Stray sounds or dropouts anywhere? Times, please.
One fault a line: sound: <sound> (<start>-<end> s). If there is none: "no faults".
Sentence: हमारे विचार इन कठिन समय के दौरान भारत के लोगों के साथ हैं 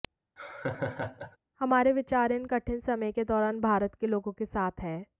sound: laugh (0.4-1.4 s)